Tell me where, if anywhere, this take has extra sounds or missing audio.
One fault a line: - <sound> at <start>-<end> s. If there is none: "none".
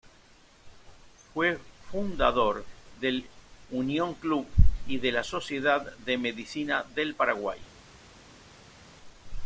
none